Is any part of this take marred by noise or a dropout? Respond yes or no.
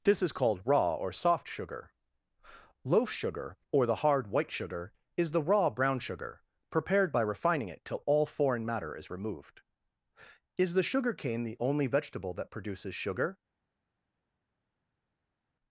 no